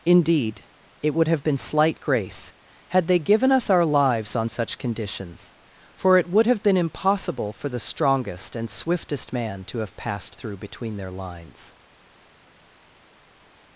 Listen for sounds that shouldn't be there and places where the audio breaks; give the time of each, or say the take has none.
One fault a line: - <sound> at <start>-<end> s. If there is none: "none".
none